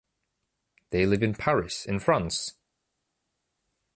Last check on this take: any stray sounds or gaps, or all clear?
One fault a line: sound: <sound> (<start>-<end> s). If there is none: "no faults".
no faults